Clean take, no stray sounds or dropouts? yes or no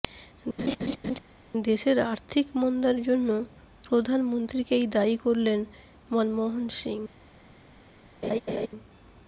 no